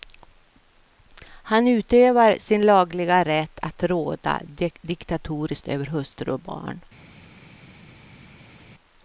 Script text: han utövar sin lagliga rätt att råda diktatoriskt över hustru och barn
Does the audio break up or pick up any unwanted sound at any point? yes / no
no